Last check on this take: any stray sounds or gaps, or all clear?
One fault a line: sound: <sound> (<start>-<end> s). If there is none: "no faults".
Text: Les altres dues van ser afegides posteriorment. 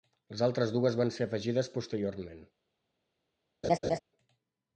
sound: laugh (3.6-4.0 s)